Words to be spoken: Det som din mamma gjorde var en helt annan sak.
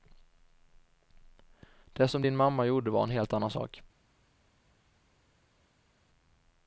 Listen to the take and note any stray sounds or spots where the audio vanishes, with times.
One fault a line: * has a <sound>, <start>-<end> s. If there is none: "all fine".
all fine